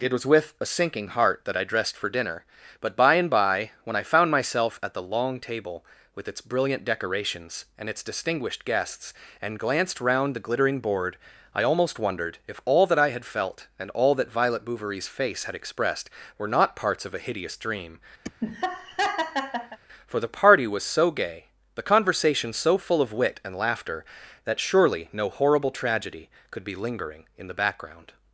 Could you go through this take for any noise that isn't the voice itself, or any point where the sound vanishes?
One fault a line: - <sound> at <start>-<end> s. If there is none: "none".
- laugh at 18.2-19.8 s